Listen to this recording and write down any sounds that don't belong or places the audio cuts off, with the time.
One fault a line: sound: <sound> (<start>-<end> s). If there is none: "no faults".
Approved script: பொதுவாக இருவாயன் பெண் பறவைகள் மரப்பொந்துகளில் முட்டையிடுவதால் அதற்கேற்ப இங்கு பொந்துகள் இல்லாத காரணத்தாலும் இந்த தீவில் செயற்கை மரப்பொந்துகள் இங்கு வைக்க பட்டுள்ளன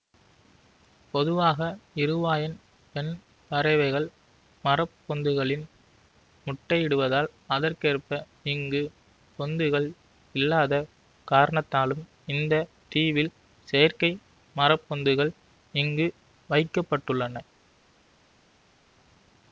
no faults